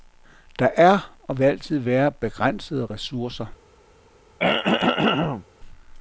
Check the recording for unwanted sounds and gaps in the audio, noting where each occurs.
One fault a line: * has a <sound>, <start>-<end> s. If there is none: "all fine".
* has a throat clearing, 4.4-5.5 s